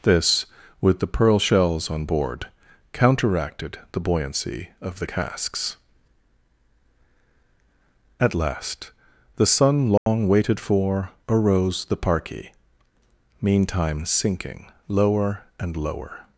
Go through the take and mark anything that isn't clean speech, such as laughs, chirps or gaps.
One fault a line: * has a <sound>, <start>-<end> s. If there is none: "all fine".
* has a dropout, 10.0-10.1 s